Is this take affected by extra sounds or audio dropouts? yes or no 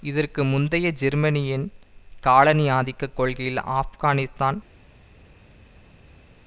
no